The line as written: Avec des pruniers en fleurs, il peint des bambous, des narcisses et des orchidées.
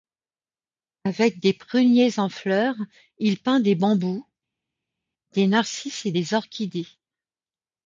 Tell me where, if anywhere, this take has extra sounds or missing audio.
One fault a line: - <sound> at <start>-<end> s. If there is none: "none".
none